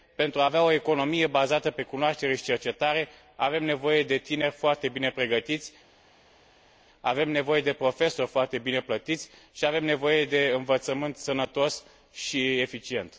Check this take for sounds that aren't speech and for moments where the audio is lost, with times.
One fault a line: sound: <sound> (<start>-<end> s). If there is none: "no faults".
no faults